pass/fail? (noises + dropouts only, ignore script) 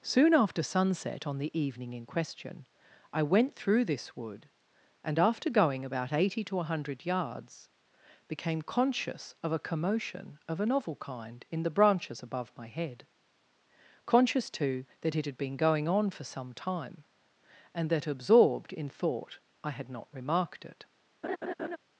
fail